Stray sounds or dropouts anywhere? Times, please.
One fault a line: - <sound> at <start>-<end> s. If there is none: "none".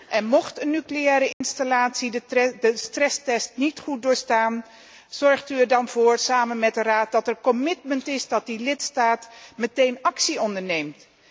- dropout at 1.3-1.4 s